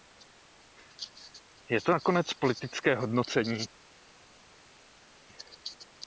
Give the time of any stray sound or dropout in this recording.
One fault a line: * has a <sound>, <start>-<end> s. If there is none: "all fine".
all fine